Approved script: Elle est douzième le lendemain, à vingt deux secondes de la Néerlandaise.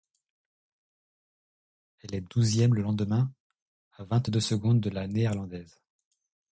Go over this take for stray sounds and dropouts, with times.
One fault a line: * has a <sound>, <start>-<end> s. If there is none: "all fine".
all fine